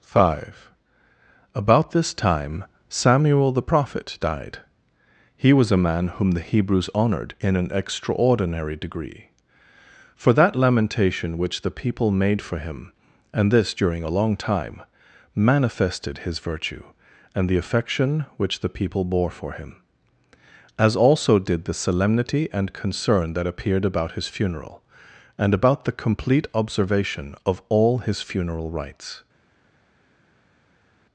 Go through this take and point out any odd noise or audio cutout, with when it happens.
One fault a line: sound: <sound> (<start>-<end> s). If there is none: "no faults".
no faults